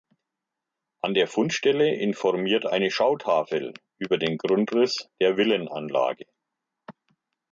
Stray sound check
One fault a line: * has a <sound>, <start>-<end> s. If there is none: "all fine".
all fine